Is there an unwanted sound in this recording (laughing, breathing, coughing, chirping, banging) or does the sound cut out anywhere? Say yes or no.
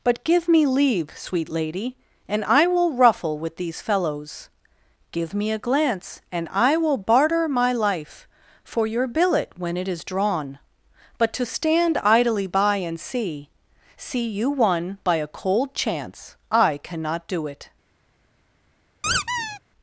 yes